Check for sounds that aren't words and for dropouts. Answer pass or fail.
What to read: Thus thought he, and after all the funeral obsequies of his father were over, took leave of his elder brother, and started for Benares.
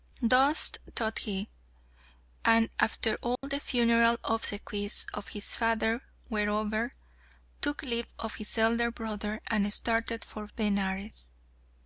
fail